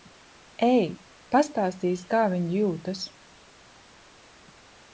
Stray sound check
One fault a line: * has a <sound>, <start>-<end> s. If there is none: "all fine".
all fine